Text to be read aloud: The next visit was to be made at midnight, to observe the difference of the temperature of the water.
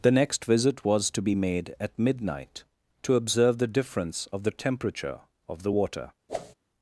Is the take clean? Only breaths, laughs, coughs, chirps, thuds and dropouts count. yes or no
no